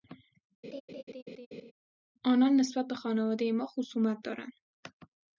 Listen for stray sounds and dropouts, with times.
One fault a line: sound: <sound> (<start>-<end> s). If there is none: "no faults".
sound: laugh (0.6-1.7 s)